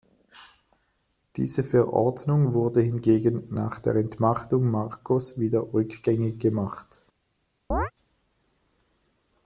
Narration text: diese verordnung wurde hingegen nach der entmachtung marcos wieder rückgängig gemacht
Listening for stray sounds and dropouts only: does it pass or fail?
fail